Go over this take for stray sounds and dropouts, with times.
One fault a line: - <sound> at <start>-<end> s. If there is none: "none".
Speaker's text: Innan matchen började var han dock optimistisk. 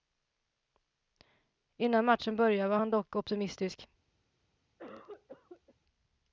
- cough at 4.8-5.7 s